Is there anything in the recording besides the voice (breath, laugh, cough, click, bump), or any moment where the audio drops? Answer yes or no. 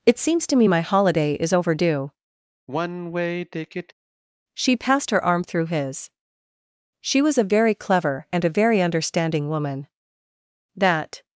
yes